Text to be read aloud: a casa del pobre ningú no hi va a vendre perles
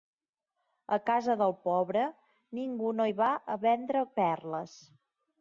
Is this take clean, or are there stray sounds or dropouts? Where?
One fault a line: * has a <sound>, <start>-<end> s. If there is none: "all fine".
all fine